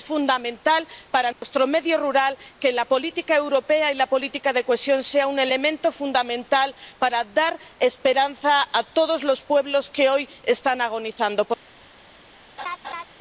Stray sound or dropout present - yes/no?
yes